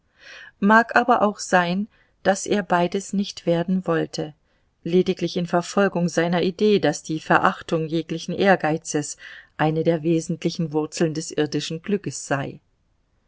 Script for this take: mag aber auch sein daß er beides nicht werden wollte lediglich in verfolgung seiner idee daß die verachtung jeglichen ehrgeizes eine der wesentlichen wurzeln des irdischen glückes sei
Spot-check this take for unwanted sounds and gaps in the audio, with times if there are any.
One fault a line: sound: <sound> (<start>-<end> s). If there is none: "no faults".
no faults